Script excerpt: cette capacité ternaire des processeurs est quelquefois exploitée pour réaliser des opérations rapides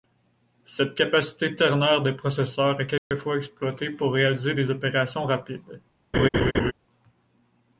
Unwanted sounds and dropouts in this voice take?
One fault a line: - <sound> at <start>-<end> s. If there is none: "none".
- dropout at 3.0-3.1 s
- laugh at 6.1-6.7 s